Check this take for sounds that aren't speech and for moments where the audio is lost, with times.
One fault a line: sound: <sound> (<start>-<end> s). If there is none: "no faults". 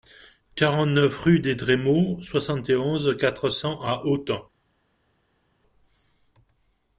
no faults